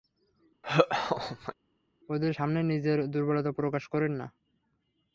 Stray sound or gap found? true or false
true